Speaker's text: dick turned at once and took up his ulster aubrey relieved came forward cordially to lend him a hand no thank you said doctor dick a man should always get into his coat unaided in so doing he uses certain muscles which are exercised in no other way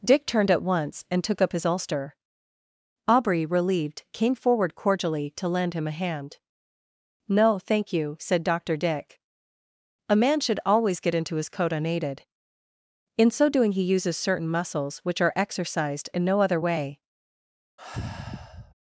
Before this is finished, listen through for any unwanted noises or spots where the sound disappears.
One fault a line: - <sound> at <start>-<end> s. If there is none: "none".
- sigh at 17.8-18.7 s